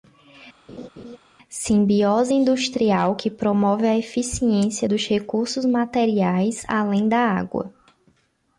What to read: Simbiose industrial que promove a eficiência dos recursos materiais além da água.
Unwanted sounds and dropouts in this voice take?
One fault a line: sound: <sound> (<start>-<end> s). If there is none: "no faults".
sound: laugh (0.7-1.2 s)